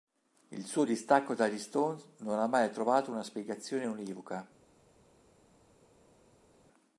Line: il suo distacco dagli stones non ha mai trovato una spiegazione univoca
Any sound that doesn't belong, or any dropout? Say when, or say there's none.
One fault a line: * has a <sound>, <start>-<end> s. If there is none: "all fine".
all fine